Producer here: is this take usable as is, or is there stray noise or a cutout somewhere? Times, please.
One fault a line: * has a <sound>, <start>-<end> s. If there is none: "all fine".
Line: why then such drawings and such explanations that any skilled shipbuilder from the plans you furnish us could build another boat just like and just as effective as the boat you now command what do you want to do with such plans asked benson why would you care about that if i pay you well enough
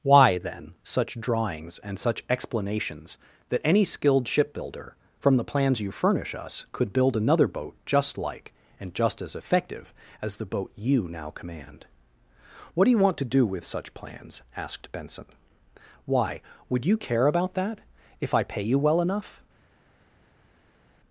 all fine